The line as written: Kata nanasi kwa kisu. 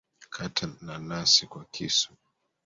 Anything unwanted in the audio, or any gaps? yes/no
no